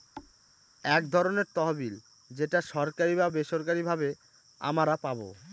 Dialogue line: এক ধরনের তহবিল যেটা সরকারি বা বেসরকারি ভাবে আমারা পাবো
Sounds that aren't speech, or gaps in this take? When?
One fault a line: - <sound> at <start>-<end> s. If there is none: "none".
- thud at 0.2-0.4 s